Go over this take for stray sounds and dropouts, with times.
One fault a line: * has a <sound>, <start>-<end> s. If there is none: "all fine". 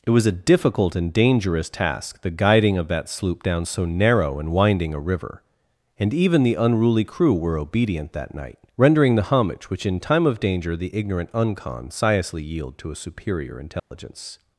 * has a dropout, 13.8-13.9 s